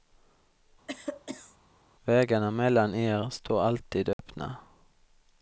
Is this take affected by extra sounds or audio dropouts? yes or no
yes